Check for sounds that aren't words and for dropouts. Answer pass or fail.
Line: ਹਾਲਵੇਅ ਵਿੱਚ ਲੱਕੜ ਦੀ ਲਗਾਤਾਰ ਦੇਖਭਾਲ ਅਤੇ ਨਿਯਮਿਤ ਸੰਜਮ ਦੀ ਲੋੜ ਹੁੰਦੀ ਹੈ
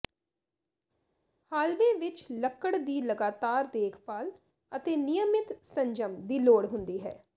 pass